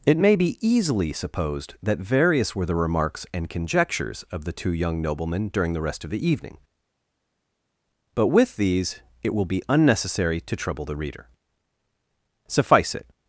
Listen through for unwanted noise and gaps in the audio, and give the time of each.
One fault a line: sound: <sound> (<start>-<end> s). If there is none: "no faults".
no faults